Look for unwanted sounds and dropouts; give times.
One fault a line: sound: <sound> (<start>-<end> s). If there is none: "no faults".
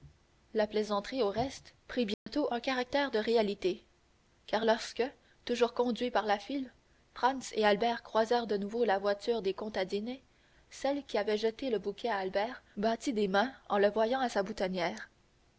sound: dropout (2.1-2.3 s)